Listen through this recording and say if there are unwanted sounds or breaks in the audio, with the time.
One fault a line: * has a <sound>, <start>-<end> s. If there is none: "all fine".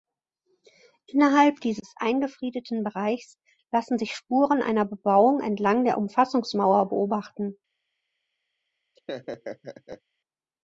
* has a laugh, 9.0-10.0 s